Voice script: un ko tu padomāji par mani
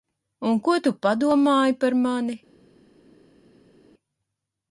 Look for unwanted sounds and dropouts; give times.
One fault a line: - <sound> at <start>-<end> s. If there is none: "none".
none